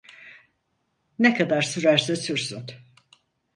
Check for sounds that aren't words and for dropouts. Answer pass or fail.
pass